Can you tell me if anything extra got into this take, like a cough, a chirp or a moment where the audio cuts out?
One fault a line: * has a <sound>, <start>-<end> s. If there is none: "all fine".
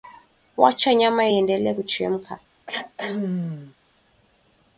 * has a throat clearing, 2.7-3.8 s